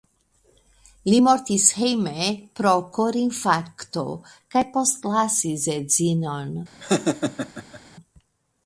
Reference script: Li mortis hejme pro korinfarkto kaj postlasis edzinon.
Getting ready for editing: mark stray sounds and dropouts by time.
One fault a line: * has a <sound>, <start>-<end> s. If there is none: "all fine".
* has a laugh, 6.8-7.8 s